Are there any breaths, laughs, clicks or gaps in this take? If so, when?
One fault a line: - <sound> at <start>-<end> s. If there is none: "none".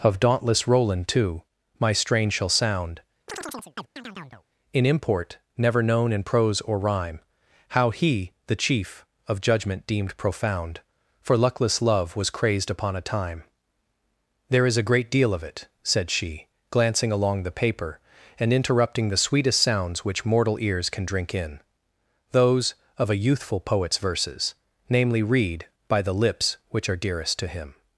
- chirp at 3.3-4.4 s